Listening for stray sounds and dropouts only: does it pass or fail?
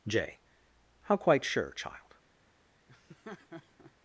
fail